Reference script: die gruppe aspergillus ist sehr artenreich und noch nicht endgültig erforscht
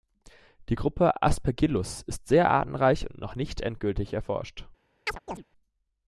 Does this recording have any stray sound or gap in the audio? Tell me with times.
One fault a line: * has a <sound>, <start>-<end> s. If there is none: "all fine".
* has a chirp, 5.1-5.4 s